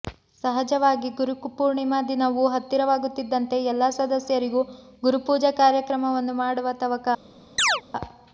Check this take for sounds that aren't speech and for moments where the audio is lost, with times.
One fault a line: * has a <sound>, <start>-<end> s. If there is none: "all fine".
* has a chirp, 7.6-7.8 s